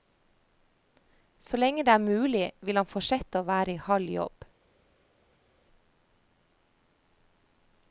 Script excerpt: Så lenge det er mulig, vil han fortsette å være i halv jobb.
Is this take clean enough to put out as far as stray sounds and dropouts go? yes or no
yes